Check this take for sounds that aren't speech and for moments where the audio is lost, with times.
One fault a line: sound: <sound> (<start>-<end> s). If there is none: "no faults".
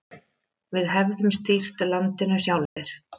sound: dropout (2.7-2.8 s)